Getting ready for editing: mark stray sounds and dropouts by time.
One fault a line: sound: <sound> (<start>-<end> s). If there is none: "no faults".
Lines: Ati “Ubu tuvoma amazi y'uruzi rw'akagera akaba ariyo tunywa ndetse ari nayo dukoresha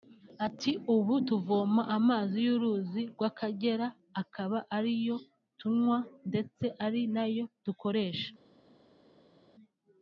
no faults